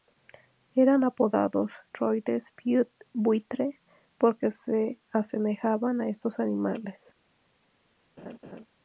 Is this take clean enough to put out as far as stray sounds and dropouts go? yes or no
no